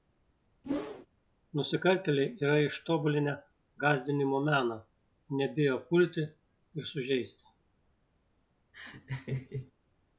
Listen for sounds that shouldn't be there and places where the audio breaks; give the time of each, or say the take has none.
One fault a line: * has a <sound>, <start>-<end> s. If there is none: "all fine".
* has a whoosh, 0.6-1.1 s
* has a laugh, 8.7-9.7 s